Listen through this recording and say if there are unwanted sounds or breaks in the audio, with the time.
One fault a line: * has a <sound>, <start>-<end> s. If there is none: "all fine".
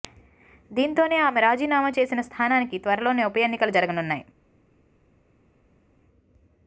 all fine